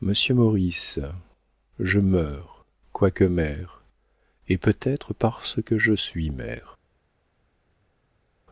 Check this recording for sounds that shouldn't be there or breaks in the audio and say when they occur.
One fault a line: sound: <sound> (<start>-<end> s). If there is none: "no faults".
no faults